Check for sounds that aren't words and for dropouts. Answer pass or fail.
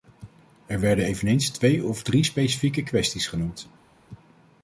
pass